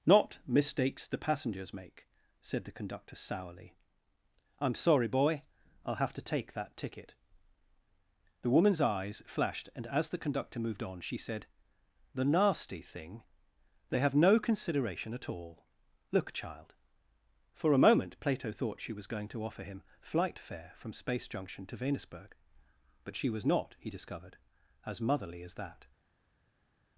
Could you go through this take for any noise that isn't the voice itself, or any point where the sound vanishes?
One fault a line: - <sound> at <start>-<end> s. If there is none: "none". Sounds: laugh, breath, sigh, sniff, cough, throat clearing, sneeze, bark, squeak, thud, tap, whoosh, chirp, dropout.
none